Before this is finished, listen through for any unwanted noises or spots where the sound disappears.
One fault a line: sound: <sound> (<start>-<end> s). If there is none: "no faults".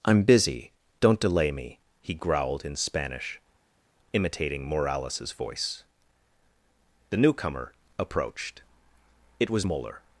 no faults